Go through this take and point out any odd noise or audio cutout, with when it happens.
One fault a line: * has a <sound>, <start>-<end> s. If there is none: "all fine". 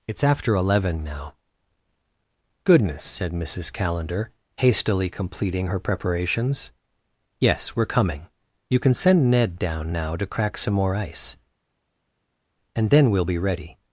all fine